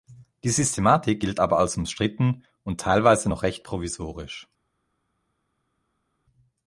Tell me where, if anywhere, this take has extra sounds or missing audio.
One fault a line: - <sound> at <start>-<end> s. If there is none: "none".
none